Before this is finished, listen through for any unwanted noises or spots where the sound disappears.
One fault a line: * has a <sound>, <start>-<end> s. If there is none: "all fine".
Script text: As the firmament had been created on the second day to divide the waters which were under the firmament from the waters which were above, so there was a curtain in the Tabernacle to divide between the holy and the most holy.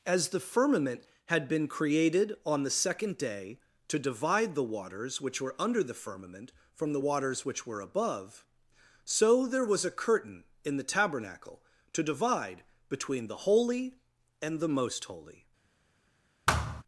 * has a thud, 16.5-16.8 s